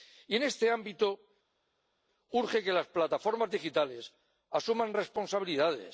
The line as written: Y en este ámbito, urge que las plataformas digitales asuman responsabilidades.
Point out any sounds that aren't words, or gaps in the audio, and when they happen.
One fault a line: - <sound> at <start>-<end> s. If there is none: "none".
none